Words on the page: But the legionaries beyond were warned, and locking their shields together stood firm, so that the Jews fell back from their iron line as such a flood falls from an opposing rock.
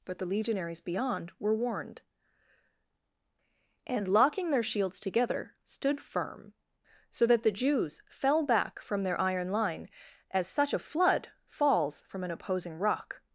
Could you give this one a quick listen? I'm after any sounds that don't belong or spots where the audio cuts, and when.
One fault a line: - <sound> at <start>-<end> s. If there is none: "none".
none